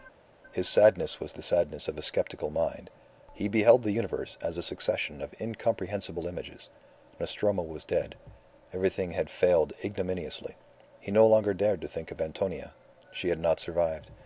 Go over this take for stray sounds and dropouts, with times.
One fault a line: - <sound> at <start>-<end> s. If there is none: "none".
none